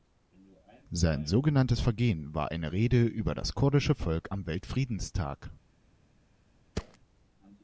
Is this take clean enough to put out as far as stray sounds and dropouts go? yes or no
no